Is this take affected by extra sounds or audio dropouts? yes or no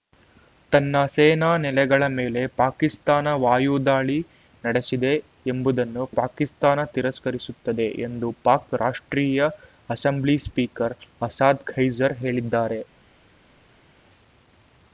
no